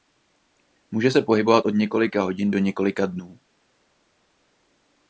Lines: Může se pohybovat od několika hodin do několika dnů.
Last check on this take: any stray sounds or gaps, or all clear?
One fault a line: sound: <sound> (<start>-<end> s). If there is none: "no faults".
no faults